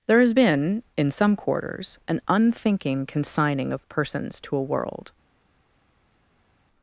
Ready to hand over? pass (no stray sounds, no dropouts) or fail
pass